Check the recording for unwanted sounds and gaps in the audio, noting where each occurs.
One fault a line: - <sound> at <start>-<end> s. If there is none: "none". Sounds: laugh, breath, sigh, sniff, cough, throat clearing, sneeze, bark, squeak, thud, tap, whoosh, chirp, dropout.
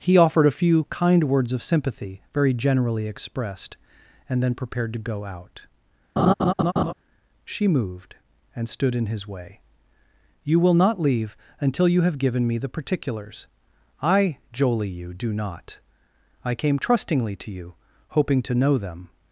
- laugh at 6.2-6.9 s